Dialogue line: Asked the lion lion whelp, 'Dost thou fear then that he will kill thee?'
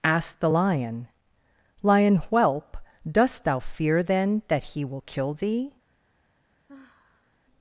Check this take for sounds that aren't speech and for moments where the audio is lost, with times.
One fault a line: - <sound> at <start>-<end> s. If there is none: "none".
- sigh at 6.7-7.4 s